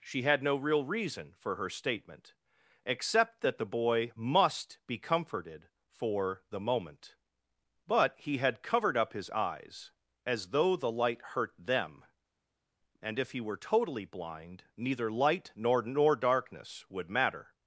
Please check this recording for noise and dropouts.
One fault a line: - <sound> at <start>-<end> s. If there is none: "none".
none